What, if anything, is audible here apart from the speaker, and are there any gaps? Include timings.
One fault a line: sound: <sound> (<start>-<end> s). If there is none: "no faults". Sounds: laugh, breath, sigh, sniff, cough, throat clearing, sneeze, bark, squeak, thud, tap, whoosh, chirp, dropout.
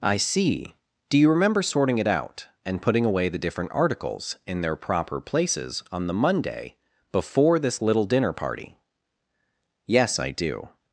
no faults